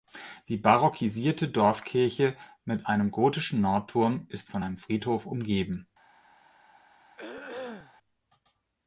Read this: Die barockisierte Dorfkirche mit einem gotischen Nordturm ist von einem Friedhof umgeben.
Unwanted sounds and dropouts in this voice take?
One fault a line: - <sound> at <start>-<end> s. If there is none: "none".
- throat clearing at 7.2-8.0 s